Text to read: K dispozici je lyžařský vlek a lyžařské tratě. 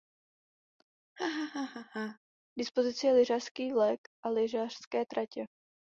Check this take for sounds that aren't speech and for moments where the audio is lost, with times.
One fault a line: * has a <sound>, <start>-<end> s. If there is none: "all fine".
* has a laugh, 1.2-2.2 s